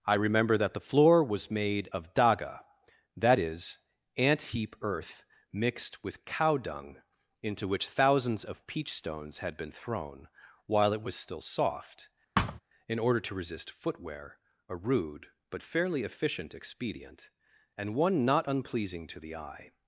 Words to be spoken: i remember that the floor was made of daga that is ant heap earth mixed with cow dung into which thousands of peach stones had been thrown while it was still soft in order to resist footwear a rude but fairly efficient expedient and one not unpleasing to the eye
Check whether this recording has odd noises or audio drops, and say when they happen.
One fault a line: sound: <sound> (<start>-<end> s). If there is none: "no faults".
sound: thud (12.4-12.6 s)